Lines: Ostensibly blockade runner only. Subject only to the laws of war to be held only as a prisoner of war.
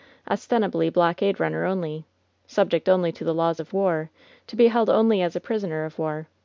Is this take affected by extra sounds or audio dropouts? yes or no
no